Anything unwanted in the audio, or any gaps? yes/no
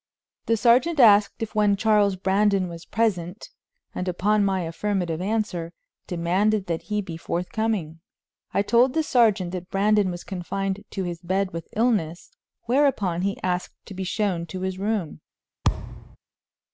yes